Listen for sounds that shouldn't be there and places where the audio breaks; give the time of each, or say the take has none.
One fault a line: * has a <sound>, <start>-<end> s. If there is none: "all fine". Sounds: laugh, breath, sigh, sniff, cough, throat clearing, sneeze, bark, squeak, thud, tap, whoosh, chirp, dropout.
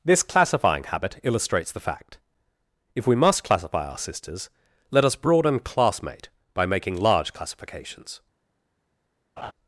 * has a laugh, 9.4-9.5 s